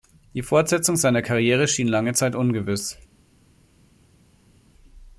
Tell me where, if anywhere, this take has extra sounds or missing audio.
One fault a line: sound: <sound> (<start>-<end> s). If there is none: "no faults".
no faults